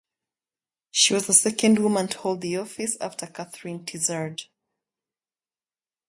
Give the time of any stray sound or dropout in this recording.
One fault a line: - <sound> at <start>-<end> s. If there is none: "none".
none